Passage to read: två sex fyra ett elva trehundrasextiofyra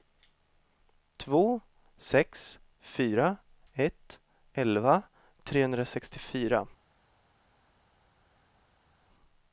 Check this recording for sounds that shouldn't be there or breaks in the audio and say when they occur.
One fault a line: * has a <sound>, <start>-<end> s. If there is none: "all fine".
all fine